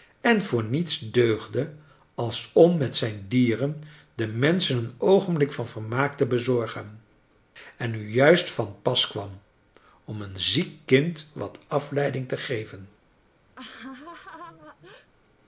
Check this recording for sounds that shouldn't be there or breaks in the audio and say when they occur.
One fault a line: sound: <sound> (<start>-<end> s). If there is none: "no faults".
sound: laugh (13.6-15.1 s)